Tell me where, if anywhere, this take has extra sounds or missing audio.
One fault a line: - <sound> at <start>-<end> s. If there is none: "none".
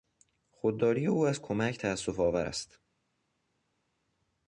none